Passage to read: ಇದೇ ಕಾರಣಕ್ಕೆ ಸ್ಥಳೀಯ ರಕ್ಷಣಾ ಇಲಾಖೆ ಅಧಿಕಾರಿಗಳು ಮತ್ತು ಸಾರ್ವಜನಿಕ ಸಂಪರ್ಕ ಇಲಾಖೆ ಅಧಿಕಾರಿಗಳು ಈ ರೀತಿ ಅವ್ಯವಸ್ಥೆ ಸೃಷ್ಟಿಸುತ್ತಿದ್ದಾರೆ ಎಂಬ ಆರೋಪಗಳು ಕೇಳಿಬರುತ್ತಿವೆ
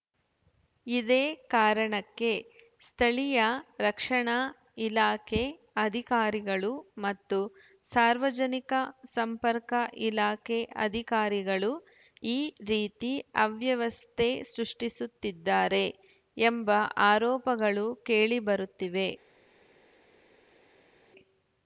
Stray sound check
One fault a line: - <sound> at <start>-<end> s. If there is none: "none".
none